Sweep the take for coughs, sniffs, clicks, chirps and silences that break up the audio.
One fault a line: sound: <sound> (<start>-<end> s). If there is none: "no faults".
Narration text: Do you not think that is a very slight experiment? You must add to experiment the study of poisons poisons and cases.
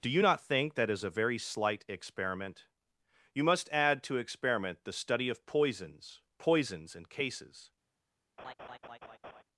sound: laugh (8.4-9.4 s)